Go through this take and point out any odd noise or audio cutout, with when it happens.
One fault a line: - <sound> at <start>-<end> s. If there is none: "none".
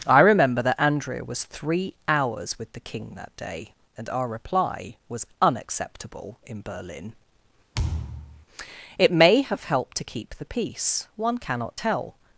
- thud at 7.7-8.5 s